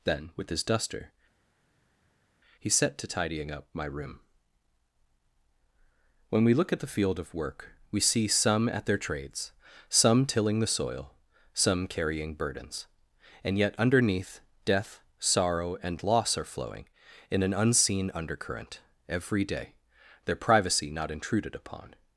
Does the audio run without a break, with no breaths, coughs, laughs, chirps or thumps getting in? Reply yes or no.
yes